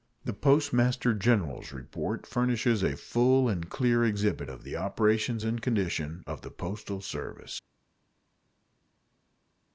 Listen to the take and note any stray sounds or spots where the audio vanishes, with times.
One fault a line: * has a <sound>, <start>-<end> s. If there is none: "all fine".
all fine